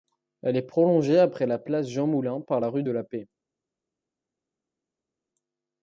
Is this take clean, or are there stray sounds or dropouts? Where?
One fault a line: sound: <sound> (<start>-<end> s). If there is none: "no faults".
no faults